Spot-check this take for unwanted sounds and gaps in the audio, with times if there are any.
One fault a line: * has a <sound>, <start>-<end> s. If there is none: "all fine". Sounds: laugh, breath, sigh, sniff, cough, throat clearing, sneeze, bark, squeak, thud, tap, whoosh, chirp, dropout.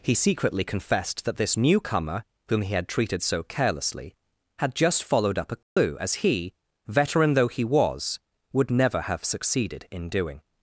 * has a dropout, 5.6-5.8 s